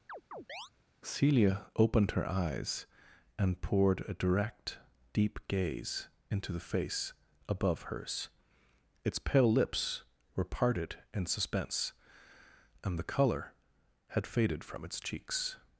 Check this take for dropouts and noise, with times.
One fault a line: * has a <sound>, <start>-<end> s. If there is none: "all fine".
* has a chirp, 0.1-0.7 s